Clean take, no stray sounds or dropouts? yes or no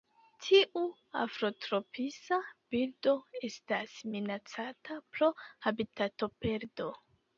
yes